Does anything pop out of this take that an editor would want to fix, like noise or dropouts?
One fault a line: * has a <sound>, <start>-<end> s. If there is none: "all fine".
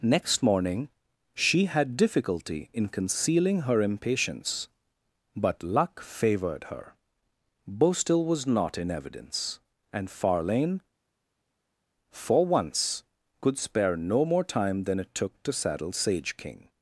all fine